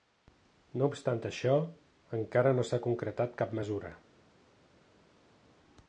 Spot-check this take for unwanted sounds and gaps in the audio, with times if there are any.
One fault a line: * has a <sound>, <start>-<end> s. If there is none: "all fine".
all fine